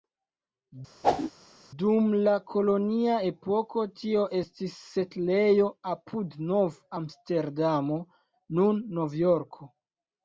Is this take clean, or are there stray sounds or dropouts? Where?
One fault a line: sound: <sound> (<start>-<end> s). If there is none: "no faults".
sound: whoosh (1.0-1.3 s)